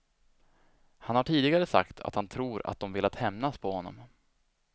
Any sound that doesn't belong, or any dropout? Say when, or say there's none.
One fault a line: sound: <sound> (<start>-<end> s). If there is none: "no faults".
no faults